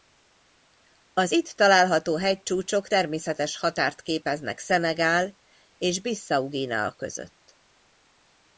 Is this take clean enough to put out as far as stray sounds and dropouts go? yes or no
yes